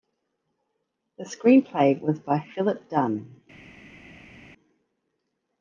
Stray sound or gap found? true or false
false